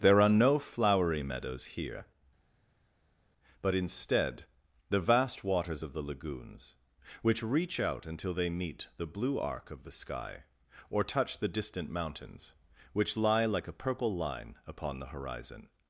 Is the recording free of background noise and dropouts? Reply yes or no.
yes